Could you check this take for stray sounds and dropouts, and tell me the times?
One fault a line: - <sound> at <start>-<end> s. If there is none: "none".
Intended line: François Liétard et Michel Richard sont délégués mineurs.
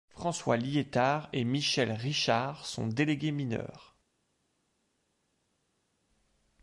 none